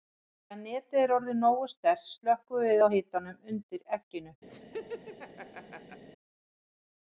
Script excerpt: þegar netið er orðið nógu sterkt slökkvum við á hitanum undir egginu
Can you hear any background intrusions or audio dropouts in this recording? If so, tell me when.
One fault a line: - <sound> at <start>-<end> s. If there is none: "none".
- laugh at 4.5-6.0 s